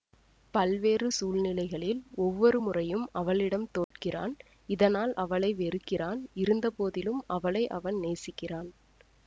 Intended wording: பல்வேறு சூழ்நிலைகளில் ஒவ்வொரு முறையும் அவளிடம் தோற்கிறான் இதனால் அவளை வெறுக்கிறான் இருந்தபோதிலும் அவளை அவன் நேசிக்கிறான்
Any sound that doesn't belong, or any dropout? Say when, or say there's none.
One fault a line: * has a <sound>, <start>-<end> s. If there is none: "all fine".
* has a dropout, 3.8-3.9 s